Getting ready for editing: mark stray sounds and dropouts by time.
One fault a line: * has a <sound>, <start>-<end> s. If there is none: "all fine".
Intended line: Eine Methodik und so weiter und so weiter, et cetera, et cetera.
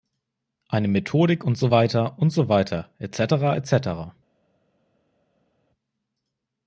all fine